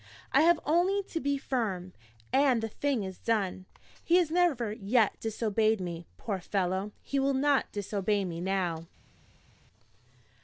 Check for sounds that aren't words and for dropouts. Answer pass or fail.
pass